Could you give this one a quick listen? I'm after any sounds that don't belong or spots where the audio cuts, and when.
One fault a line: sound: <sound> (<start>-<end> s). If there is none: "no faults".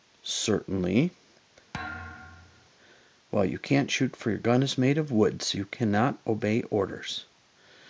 sound: thud (1.7-2.7 s)